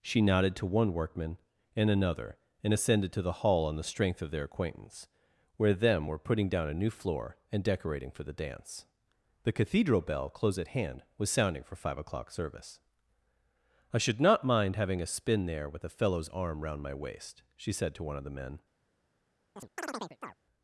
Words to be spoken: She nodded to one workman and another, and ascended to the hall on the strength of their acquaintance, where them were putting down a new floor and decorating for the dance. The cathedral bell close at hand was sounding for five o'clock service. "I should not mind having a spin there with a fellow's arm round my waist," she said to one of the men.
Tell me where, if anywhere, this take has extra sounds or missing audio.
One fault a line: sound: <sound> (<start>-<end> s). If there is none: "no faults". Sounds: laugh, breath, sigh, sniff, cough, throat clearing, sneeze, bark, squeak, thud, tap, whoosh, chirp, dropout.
sound: chirp (19.6-20.4 s)